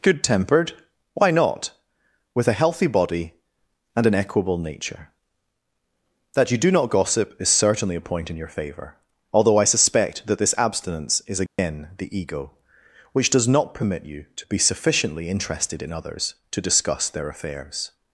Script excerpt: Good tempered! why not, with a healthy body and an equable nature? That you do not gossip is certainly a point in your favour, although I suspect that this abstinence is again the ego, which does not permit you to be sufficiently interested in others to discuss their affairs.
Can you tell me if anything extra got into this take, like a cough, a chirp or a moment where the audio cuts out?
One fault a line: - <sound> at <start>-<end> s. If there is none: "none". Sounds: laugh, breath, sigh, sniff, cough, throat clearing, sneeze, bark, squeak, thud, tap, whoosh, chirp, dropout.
- dropout at 11.5-11.6 s